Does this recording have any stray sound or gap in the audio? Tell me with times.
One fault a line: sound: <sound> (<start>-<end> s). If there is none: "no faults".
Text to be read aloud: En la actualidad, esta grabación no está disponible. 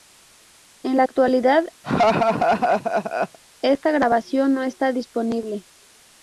sound: laugh (1.8-3.4 s)